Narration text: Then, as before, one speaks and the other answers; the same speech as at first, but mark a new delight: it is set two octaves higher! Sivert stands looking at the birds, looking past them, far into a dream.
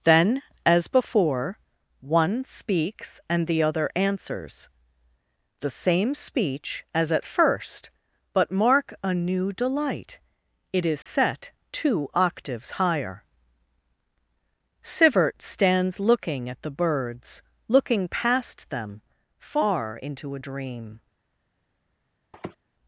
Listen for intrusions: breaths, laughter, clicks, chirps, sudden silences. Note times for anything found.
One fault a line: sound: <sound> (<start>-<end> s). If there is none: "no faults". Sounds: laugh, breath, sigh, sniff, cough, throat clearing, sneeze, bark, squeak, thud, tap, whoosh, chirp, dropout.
sound: dropout (11.0-11.1 s)
sound: sniff (22.3-22.6 s)